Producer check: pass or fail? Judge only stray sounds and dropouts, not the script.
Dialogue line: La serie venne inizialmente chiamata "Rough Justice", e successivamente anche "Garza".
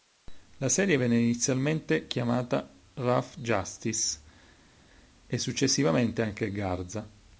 pass